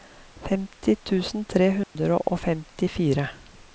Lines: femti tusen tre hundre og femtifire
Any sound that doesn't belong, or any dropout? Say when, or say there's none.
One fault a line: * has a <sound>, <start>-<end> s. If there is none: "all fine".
* has a dropout, 1.8-2.0 s